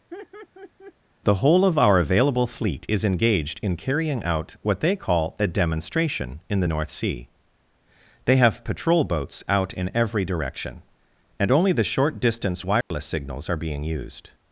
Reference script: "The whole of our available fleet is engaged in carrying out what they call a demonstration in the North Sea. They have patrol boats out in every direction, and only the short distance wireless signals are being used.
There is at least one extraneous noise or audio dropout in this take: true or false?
true